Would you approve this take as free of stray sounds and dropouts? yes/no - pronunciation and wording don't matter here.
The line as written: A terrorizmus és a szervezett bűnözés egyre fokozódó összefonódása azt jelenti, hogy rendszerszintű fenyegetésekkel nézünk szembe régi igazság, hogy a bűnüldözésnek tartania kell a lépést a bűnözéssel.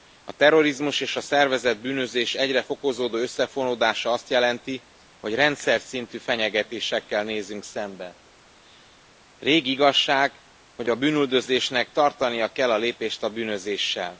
yes